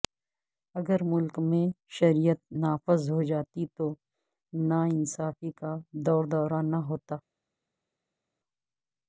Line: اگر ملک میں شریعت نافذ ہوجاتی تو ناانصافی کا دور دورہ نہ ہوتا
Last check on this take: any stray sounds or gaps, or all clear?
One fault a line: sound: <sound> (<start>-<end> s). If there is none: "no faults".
no faults